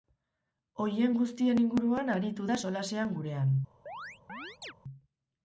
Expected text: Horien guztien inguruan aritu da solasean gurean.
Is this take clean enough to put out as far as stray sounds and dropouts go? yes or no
no